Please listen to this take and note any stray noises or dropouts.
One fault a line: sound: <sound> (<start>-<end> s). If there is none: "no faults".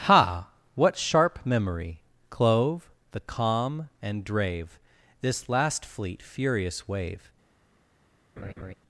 sound: laugh (8.4-8.7 s)